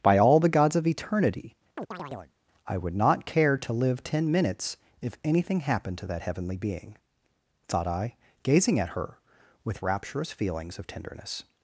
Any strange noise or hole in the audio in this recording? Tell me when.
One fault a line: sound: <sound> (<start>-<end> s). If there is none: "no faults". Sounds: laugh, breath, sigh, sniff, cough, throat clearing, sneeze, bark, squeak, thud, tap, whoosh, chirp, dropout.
sound: chirp (1.8-2.3 s)